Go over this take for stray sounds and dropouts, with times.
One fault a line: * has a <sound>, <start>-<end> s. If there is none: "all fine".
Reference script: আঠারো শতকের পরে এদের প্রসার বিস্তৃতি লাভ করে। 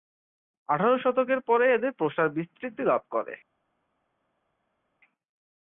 all fine